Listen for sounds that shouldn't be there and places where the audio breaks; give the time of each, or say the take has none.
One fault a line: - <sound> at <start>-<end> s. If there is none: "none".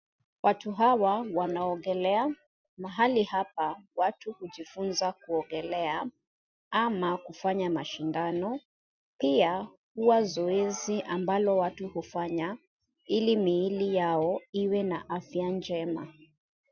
none